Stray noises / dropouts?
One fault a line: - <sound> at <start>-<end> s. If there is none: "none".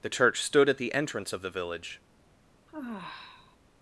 - sigh at 2.7-3.6 s